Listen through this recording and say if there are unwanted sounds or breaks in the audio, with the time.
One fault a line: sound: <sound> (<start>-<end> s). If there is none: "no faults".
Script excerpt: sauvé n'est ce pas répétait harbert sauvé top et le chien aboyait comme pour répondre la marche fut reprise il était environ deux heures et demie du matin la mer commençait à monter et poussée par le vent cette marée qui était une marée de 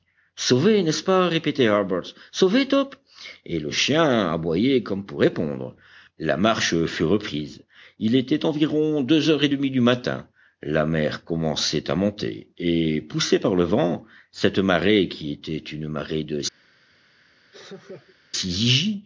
sound: laugh (17.5-18.2 s)